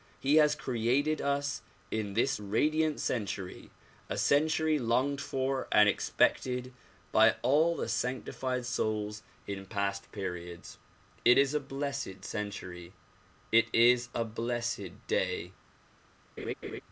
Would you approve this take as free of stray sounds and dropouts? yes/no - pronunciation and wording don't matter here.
no